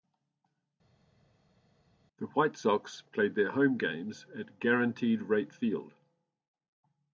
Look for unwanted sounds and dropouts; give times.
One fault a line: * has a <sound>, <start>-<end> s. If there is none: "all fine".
all fine